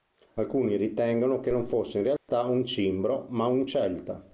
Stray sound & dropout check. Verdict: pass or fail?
fail